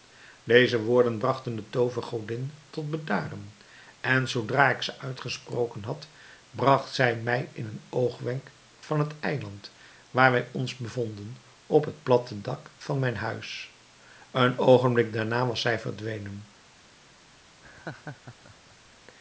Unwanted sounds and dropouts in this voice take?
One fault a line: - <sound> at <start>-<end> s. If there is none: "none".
- laugh at 17.6-18.9 s